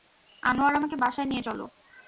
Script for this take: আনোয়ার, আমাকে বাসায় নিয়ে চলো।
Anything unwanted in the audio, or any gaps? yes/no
no